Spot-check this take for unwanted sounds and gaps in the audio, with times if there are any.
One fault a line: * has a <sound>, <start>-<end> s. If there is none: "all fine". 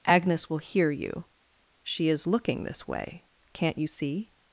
all fine